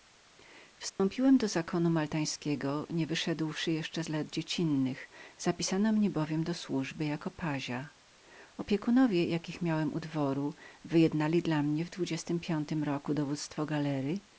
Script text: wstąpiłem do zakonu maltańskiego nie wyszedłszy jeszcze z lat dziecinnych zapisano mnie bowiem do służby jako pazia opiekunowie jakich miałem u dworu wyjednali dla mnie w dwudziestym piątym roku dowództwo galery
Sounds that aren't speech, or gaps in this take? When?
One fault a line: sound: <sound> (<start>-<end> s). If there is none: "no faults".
sound: dropout (0.9-1.0 s)